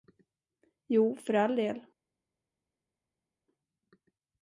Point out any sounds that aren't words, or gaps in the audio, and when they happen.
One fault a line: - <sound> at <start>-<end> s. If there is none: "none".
none